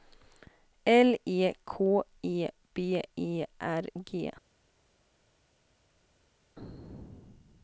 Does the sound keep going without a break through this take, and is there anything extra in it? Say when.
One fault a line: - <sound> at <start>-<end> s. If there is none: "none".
none